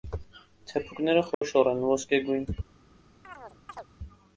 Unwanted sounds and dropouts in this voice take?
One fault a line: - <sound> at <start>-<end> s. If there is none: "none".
- dropout at 1.3-1.4 s
- chirp at 3.2-3.9 s